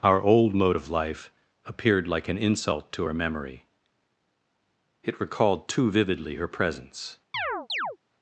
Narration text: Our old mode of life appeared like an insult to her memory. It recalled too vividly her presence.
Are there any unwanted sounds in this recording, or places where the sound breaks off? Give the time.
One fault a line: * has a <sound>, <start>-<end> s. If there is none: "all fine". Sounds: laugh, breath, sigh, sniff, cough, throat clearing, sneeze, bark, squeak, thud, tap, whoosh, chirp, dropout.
* has a chirp, 7.3-8.0 s